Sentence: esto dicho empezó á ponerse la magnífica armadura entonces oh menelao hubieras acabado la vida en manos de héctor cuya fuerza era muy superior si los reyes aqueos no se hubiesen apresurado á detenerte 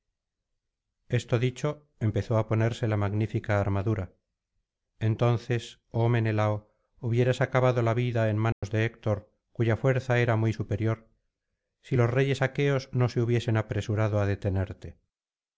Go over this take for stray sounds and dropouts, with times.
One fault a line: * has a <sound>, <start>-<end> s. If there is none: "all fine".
* has a dropout, 8.5-8.6 s